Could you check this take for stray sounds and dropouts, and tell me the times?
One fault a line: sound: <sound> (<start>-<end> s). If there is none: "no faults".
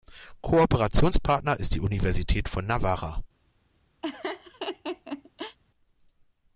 sound: laugh (4.0-5.6 s)